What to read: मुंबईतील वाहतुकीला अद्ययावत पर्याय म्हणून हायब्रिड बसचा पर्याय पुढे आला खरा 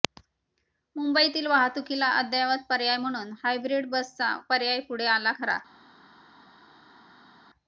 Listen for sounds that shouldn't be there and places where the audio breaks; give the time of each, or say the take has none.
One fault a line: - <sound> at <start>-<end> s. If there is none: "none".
none